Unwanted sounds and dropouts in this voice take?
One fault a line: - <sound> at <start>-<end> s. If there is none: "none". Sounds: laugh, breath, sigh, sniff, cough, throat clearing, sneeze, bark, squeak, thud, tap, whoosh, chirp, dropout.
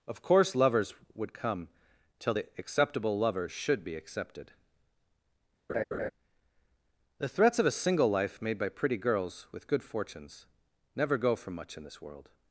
- laugh at 5.7-6.1 s